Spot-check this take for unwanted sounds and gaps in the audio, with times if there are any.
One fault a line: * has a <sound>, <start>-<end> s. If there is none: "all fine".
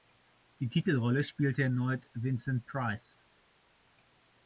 all fine